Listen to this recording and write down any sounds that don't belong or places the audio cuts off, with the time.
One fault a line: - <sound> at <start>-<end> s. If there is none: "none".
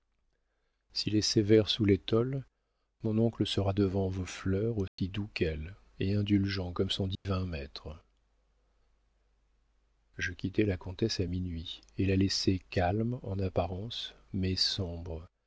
- dropout at 4.9-5.0 s
- dropout at 7.1-7.3 s